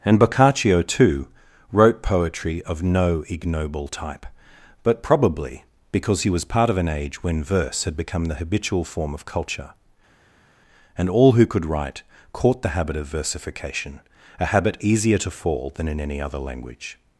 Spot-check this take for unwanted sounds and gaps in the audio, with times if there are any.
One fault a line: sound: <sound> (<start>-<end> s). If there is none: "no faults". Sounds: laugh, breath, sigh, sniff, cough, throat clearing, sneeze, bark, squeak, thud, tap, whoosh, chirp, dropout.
no faults